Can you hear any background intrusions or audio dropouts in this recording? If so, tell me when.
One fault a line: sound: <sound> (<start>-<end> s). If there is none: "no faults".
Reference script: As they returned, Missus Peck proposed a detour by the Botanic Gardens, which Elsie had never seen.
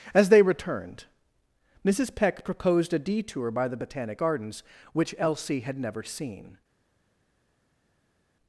no faults